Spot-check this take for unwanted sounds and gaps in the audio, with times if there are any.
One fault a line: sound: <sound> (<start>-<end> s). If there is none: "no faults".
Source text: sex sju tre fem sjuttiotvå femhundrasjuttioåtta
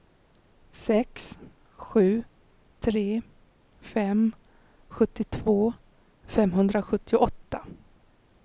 no faults